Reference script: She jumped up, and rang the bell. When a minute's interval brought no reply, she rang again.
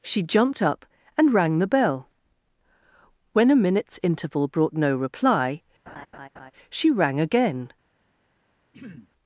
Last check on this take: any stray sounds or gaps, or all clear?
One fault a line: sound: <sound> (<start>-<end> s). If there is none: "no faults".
sound: laugh (5.9-6.5 s)
sound: throat clearing (8.7-9.1 s)